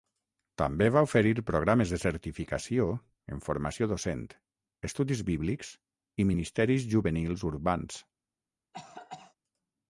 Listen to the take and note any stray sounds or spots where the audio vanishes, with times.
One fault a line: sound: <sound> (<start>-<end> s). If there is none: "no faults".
sound: cough (8.7-9.4 s)